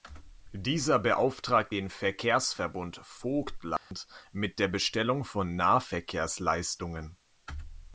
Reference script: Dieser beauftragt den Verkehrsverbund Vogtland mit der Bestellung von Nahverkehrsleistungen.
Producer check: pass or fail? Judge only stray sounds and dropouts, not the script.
fail